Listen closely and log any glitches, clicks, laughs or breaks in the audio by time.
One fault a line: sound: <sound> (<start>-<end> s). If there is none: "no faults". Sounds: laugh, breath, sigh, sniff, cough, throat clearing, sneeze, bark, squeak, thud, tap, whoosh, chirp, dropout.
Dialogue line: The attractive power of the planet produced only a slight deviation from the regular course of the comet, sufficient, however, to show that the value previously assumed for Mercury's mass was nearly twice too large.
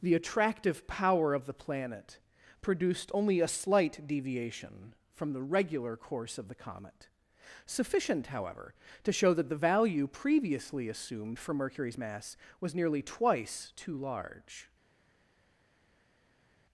no faults